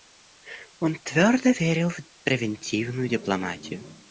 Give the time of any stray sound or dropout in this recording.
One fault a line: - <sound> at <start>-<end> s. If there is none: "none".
none